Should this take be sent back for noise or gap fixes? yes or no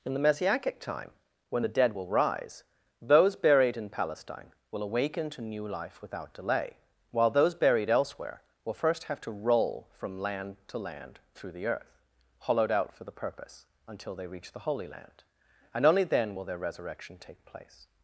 no